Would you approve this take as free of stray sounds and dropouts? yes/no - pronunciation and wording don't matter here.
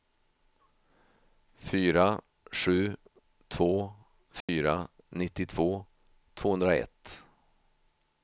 no